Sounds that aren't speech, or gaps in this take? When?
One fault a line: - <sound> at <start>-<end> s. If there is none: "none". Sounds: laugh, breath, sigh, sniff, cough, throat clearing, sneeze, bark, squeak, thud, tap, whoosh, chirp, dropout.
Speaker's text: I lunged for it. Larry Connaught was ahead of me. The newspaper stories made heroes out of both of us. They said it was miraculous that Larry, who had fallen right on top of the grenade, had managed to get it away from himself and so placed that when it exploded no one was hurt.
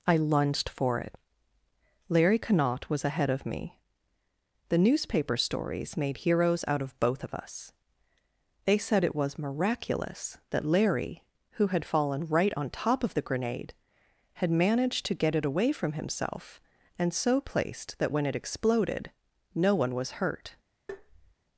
- tap at 20.9-21.4 s